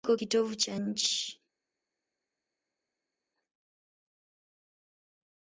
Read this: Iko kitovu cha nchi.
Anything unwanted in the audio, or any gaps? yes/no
no